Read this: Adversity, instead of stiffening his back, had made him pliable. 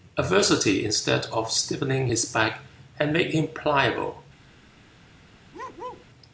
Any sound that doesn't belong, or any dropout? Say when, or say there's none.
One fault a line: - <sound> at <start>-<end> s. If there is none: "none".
- bark at 5.5-6.1 s